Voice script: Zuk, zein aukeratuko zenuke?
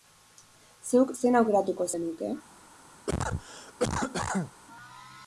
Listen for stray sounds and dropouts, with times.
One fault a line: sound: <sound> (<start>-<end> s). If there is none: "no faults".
sound: cough (3.1-4.5 s)